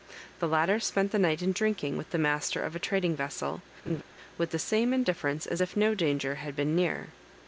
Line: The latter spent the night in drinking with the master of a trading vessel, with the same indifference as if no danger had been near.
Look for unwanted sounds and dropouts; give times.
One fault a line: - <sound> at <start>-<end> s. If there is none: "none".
- laugh at 3.9-4.0 s